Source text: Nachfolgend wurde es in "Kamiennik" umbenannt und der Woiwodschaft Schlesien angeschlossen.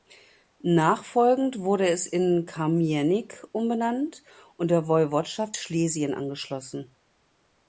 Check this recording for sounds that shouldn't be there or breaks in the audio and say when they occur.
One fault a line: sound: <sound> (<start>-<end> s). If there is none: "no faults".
no faults